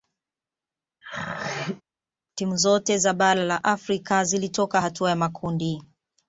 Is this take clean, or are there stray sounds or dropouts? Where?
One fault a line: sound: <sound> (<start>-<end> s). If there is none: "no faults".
sound: throat clearing (1.0-1.8 s)